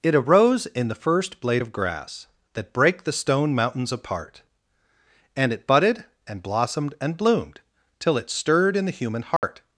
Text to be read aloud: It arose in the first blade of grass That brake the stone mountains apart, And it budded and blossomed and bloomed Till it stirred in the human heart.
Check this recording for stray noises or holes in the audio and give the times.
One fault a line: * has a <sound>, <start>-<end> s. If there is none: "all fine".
* has a dropout, 9.4-9.4 s